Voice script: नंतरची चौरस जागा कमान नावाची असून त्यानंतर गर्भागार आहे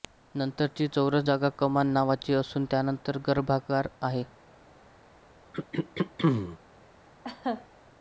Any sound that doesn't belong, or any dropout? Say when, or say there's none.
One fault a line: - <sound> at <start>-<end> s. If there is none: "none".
- throat clearing at 5.5-6.6 s
- laugh at 7.2-7.7 s